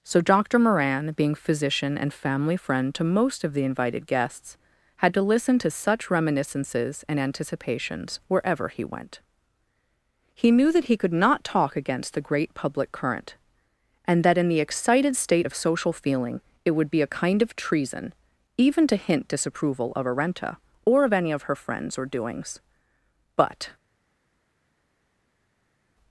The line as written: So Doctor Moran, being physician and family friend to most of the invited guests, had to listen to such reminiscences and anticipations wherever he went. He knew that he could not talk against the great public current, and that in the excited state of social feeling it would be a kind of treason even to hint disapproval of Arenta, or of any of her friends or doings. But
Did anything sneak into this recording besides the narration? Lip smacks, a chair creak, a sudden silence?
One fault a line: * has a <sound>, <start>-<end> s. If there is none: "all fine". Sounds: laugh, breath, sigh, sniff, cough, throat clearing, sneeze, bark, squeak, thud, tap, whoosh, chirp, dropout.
all fine